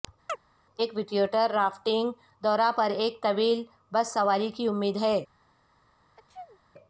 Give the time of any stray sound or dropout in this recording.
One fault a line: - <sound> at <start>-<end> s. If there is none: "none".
- chirp at 0.3-0.4 s
- sneeze at 6.2-6.6 s